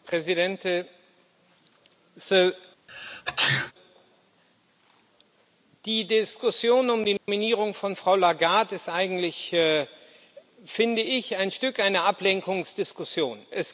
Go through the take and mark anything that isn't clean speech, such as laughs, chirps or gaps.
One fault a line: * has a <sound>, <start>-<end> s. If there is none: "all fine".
* has a sneeze, 2.9-3.7 s
* has a dropout, 7.2-7.3 s